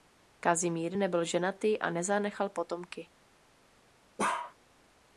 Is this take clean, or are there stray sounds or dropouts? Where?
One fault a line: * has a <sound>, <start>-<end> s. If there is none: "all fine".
* has a bark, 4.2-4.5 s